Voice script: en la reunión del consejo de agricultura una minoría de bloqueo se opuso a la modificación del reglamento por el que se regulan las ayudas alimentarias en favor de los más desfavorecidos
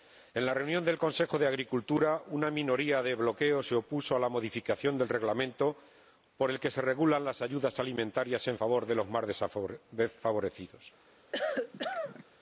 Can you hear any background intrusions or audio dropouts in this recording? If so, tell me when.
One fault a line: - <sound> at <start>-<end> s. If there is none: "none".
- cough at 11.3-12.2 s